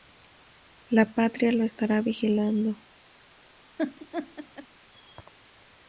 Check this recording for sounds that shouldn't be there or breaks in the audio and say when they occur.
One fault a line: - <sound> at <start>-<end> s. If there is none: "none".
- laugh at 3.8-4.7 s